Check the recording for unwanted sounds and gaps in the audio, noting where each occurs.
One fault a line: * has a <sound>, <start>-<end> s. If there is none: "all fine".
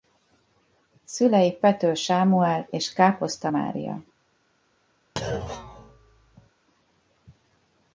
* has a thud, 5.2-6.5 s